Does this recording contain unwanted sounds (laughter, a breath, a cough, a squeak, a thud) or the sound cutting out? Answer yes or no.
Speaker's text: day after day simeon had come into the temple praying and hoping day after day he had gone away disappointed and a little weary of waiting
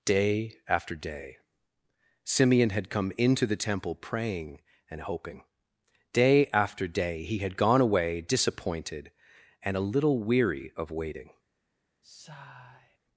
yes